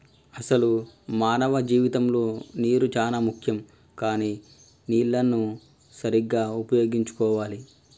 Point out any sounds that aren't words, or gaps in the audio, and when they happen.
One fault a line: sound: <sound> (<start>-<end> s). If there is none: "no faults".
no faults